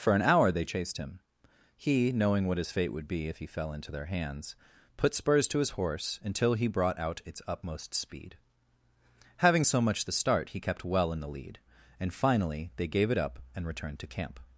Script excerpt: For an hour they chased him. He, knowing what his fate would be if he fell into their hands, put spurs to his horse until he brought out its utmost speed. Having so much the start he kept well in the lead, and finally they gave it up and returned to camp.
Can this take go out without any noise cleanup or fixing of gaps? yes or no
yes